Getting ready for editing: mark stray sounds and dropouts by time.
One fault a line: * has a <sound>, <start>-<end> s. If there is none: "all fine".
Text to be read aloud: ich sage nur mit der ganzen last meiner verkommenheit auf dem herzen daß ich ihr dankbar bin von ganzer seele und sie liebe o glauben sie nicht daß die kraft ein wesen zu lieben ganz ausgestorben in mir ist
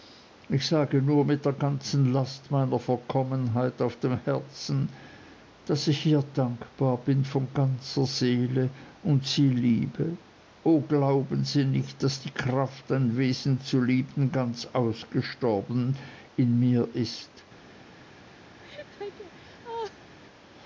* has a laugh, 18.6-20.2 s